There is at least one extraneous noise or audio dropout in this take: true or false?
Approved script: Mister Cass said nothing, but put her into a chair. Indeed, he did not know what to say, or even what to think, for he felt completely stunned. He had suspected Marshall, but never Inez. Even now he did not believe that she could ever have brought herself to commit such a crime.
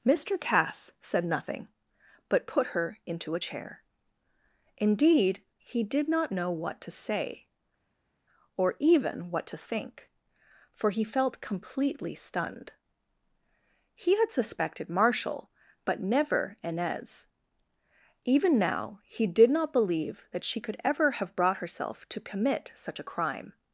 false